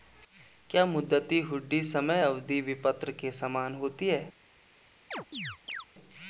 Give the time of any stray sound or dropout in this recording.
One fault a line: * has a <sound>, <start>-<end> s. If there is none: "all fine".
* has a chirp, 5.1-5.9 s